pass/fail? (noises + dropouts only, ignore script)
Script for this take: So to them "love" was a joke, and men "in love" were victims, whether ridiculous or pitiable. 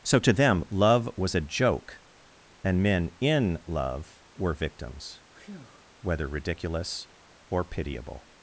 fail